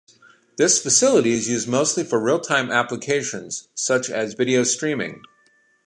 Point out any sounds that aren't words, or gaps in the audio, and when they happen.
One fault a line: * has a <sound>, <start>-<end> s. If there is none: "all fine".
all fine